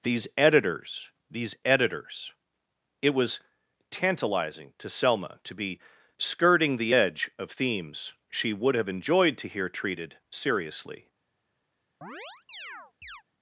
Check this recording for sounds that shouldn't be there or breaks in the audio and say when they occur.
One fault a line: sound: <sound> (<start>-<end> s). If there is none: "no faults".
sound: chirp (12.0-13.2 s)